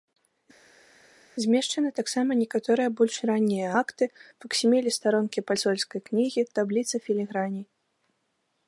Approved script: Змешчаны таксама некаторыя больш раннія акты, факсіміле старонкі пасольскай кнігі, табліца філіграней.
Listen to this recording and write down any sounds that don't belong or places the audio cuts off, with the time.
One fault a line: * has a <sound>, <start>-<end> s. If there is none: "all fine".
all fine